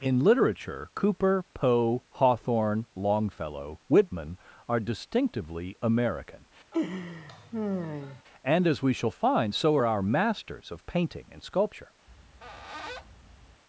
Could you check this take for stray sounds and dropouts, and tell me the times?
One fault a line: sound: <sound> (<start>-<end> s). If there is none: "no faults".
sound: laugh (6.7-8.2 s)
sound: squeak (12.1-13.6 s)